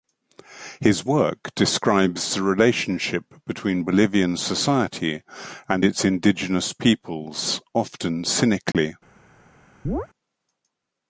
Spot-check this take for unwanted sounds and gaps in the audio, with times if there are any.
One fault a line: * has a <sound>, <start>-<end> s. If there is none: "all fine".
* has a dropout, 8.7-8.7 s
* has a chirp, 9.8-10.1 s